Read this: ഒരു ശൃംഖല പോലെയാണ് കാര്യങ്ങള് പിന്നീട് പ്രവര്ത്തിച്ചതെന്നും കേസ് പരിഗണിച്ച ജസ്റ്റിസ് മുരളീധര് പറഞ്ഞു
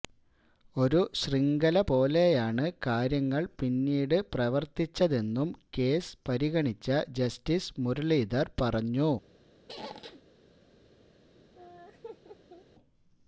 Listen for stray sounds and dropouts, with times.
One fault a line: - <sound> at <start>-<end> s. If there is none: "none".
- squeak at 9.7-10.2 s
- laugh at 11.5-12.7 s